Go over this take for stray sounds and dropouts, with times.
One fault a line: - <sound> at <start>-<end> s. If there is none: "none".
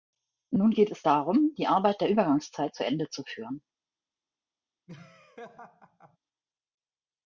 - laugh at 4.9-6.2 s